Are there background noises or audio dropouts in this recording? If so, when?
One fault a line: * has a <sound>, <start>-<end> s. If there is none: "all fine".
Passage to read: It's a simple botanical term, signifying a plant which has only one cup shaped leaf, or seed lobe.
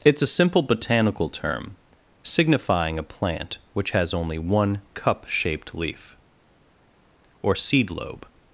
all fine